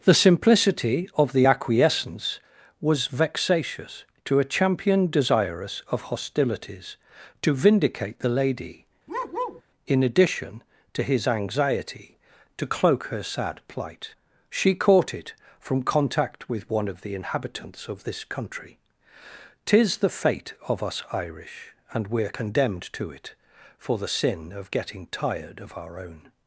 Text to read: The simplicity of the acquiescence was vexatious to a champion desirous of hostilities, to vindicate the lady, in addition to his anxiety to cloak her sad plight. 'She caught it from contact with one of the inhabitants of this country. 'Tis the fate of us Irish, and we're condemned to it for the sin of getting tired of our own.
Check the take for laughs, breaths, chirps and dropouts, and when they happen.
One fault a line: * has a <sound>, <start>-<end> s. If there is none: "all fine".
* has a bark, 9.1-9.6 s